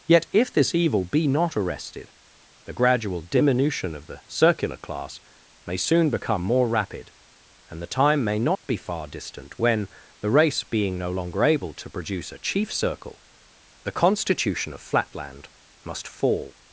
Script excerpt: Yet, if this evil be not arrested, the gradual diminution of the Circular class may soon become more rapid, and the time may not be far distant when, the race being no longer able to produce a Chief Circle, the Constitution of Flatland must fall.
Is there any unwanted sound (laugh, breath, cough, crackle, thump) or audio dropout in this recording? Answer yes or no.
yes